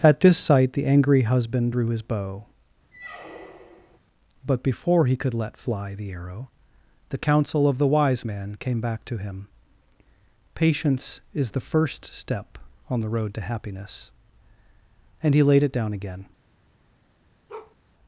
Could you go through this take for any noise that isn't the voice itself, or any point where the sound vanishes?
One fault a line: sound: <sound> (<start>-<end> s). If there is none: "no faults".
sound: squeak (2.9-4.0 s)
sound: bark (17.5-17.8 s)